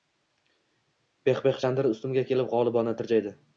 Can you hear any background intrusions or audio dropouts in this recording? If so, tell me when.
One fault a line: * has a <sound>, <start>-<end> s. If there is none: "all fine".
all fine